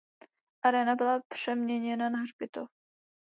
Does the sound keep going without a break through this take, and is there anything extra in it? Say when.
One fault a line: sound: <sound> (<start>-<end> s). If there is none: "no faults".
no faults